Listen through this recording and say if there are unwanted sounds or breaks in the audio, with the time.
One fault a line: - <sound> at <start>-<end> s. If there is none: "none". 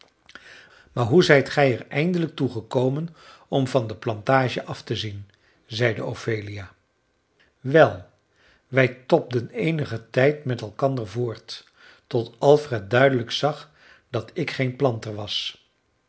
none